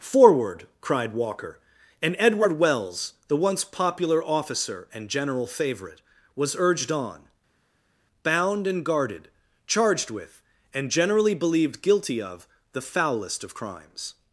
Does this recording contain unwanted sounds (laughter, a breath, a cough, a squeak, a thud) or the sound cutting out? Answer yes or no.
no